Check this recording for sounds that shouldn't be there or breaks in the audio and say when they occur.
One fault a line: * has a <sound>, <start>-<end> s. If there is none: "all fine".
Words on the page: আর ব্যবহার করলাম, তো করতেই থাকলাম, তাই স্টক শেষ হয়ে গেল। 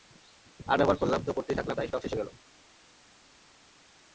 all fine